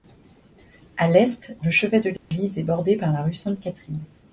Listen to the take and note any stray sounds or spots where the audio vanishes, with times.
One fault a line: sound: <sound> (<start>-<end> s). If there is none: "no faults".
sound: dropout (2.2-2.3 s)